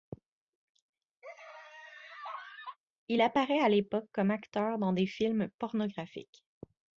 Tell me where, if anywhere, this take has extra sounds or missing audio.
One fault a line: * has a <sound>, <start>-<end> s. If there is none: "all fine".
* has a laugh, 1.2-2.8 s